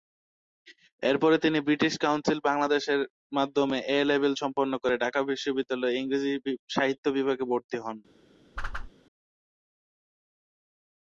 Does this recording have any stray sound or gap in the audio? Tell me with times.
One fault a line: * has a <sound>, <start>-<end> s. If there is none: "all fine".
* has a whoosh, 8.6-8.9 s